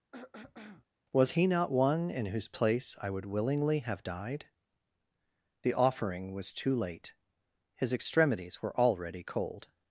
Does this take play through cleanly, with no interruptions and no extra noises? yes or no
no